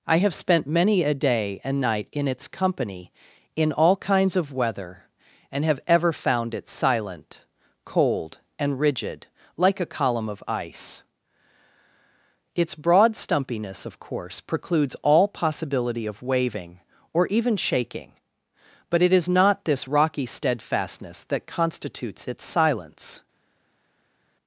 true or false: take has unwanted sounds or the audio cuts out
false